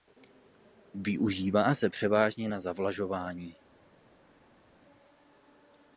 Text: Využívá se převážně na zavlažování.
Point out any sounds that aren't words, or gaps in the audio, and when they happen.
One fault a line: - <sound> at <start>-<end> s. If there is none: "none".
none